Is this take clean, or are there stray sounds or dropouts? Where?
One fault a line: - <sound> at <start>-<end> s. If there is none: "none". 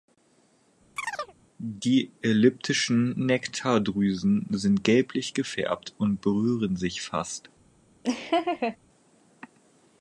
- chirp at 1.0-1.3 s
- laugh at 8.0-8.8 s